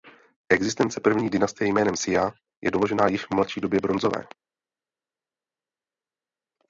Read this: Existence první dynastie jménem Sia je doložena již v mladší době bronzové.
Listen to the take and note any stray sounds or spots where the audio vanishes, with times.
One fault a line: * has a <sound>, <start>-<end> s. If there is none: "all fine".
all fine